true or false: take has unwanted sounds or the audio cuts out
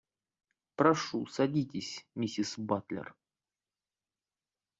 false